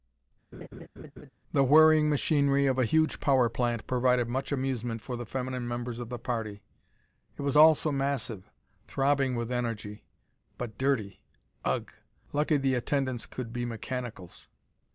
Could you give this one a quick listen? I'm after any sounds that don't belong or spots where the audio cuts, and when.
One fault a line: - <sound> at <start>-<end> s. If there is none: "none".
- laugh at 0.5-1.3 s